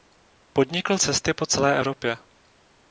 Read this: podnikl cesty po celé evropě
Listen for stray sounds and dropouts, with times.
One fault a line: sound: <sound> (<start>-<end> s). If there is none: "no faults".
no faults